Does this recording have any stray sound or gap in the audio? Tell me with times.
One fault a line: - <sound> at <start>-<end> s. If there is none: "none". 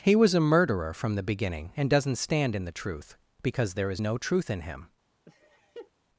- laugh at 5.3-5.9 s